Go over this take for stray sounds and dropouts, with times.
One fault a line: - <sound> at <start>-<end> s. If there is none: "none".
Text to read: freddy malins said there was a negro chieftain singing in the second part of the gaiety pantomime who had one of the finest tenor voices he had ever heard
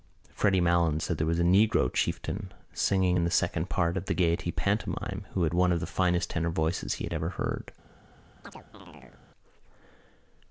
- chirp at 8.4-9.2 s